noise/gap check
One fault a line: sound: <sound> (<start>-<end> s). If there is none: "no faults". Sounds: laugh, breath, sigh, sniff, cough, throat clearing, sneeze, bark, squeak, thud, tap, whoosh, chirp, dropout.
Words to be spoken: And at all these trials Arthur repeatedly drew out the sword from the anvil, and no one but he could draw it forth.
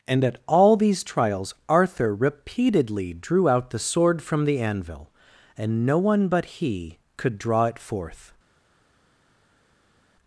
no faults